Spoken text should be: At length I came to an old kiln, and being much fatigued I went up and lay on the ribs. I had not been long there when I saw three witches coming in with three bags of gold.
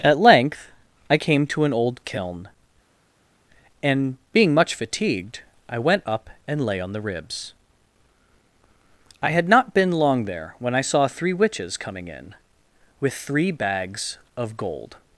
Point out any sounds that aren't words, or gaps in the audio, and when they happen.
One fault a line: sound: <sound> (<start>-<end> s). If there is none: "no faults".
no faults